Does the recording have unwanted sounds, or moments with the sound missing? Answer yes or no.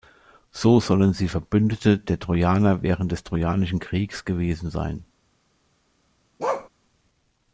yes